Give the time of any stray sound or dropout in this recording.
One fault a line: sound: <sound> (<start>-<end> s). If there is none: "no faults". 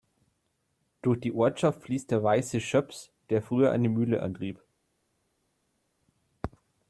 no faults